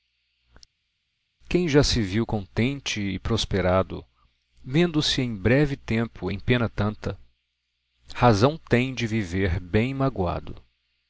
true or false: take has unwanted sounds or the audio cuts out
false